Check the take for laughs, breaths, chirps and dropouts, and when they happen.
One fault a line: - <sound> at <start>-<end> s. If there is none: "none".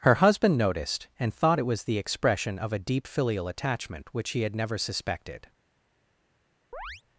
- chirp at 6.7-7.0 s